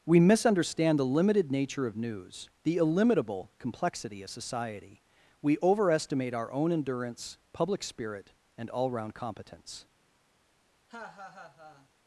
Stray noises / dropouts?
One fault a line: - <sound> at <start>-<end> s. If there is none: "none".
- laugh at 10.9-11.9 s